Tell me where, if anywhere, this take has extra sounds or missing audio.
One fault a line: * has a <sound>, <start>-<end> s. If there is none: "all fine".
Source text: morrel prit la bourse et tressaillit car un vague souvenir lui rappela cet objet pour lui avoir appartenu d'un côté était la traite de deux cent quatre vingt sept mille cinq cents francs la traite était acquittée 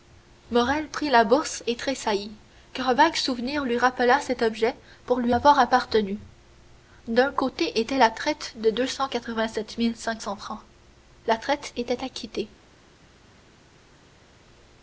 all fine